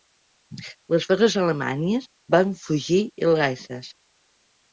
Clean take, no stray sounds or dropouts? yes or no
yes